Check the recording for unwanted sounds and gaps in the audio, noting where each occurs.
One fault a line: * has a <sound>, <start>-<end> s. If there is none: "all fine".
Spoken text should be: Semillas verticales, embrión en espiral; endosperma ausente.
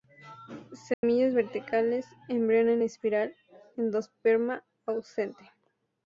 * has a dropout, 0.9-1.0 s